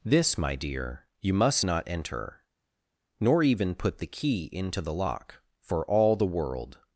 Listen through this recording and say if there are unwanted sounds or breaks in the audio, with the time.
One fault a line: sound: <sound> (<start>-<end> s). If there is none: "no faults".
no faults